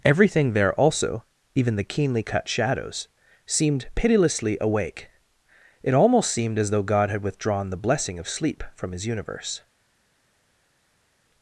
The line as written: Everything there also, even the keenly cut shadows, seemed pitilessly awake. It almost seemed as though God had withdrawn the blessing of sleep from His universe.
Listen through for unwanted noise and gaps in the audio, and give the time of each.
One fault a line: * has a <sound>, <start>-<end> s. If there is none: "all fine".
all fine